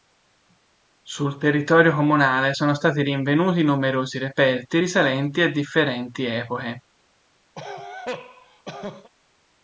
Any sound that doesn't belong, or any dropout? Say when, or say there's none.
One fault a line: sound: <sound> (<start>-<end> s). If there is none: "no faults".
sound: cough (7.5-9.1 s)